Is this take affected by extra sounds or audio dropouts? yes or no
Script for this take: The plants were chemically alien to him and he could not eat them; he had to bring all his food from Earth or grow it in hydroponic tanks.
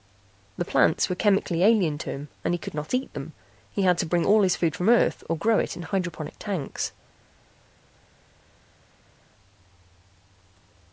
no